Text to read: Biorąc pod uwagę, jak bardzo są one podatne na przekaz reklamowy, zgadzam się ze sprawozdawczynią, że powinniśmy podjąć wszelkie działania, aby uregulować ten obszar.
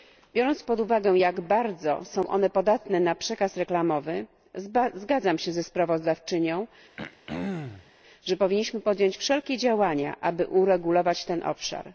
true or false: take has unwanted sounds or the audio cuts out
true